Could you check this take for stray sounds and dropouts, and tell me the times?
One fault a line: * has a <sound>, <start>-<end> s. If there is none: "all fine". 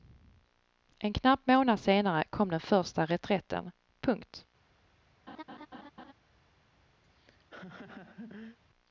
* has a laugh, 5.3-6.1 s
* has a laugh, 7.0-8.6 s